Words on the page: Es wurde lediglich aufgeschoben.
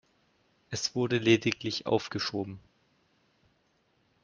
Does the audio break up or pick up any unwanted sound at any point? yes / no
no